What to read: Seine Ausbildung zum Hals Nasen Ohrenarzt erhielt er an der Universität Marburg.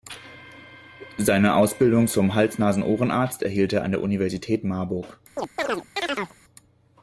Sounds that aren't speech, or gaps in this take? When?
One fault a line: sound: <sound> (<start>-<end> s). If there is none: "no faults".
sound: chirp (5.4-6.4 s)